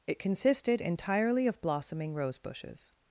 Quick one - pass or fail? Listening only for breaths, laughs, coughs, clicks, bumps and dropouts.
pass